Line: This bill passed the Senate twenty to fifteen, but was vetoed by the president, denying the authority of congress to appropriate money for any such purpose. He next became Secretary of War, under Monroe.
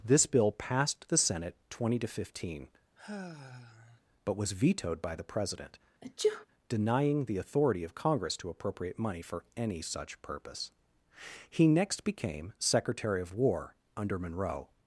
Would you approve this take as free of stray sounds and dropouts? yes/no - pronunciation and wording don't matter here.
no